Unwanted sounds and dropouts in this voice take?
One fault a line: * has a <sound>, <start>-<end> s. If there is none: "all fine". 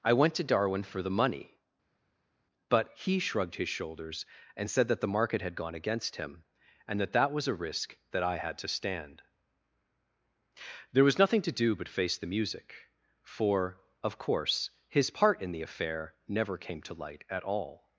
all fine